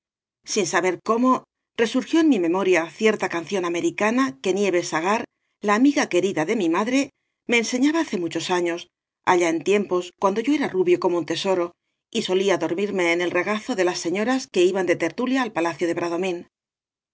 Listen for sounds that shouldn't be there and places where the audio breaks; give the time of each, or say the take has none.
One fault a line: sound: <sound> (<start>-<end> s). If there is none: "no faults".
no faults